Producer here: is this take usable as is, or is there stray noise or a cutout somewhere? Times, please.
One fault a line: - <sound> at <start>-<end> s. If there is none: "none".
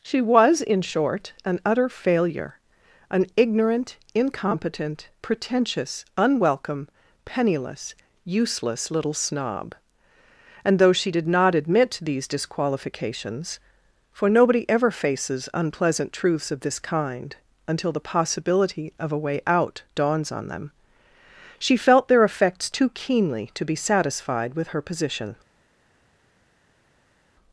none